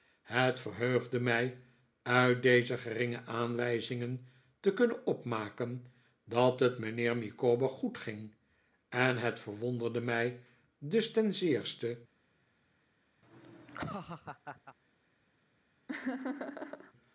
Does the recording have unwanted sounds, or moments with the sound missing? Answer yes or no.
yes